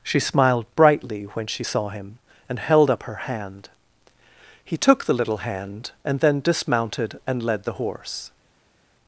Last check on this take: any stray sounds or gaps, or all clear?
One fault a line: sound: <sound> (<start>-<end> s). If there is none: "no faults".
no faults